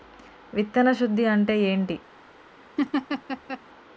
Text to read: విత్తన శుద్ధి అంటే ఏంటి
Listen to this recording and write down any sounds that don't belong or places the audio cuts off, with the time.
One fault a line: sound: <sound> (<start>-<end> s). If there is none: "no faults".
sound: laugh (2.8-3.6 s)